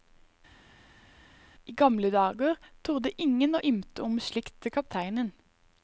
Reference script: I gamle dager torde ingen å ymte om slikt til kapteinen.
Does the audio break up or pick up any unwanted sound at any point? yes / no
no